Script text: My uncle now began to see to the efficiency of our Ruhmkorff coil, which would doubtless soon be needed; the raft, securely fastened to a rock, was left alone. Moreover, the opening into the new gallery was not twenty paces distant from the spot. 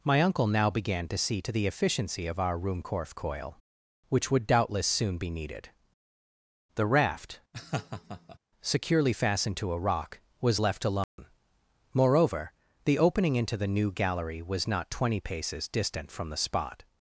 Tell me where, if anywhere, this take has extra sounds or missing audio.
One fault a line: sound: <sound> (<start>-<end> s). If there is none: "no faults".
sound: laugh (7.5-8.4 s)
sound: dropout (11.0-11.2 s)